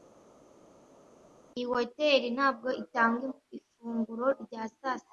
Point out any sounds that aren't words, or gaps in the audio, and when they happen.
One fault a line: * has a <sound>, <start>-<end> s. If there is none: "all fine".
all fine